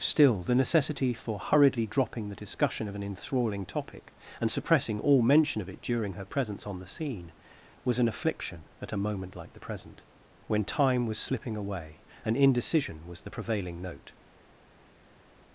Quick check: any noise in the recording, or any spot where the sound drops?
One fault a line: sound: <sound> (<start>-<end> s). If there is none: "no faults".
no faults